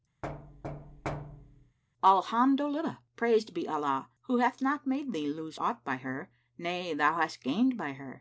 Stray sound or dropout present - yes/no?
yes